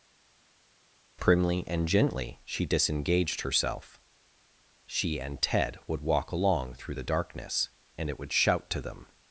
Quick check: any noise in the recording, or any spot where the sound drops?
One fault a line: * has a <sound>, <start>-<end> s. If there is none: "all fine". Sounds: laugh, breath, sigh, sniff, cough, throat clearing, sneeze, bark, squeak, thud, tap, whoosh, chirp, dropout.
all fine